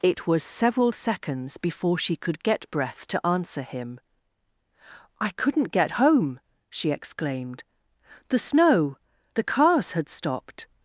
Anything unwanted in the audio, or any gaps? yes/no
no